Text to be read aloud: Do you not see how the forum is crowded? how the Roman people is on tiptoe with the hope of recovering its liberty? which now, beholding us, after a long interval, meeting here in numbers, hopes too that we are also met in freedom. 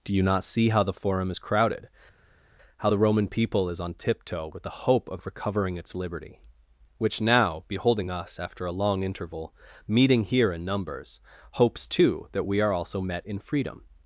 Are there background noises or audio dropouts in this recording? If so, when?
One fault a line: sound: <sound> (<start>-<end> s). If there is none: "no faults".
no faults